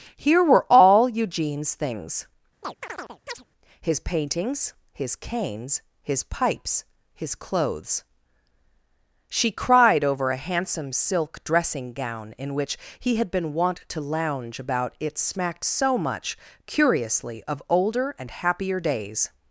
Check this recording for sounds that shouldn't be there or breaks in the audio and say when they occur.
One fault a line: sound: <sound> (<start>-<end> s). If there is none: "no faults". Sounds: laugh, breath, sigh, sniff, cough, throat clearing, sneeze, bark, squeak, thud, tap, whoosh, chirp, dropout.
sound: chirp (2.6-3.4 s)